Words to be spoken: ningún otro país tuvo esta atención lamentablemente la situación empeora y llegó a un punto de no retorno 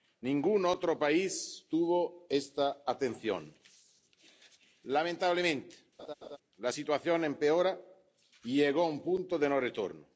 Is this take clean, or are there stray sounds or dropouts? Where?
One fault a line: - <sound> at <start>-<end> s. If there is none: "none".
- laugh at 6.0-6.4 s